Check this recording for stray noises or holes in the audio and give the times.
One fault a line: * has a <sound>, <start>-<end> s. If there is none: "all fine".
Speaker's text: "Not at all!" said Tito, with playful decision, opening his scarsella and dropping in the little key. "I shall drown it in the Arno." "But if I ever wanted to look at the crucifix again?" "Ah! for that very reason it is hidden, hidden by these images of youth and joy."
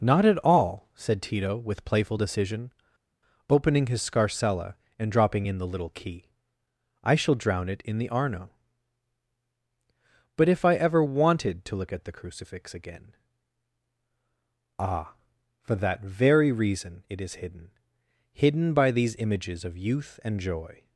all fine